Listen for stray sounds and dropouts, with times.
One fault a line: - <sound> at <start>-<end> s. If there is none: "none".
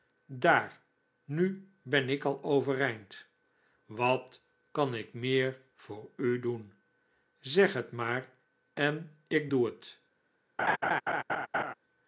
- laugh at 10.6-11.7 s